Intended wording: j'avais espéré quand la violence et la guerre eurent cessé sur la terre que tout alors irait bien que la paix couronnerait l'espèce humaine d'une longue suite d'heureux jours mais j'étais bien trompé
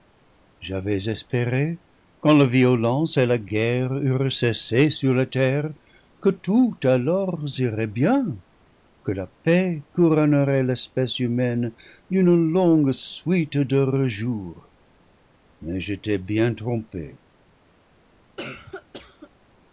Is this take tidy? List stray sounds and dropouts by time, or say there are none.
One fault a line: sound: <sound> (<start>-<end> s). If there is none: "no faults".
sound: cough (18.4-19.3 s)